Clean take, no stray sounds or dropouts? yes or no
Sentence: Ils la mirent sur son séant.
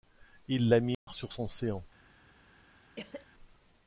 no